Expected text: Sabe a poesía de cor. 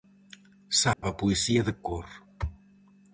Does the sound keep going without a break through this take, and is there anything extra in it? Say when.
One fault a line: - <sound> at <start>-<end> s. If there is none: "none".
- dropout at 0.9-1.0 s